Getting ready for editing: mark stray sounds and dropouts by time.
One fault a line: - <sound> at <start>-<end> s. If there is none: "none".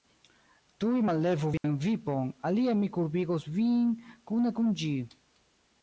- dropout at 1.6-1.6 s